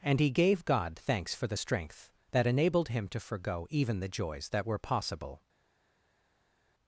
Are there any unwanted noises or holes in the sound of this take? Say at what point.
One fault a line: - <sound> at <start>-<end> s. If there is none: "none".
none